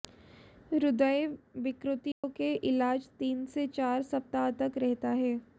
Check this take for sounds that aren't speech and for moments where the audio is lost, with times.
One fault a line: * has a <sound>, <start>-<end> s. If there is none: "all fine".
* has a dropout, 2.1-2.2 s